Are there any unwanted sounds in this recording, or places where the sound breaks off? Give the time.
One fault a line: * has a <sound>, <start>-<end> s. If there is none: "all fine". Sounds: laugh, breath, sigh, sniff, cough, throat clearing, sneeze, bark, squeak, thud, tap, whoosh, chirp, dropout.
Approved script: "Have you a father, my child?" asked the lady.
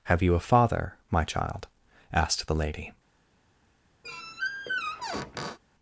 * has a squeak, 4.0-5.6 s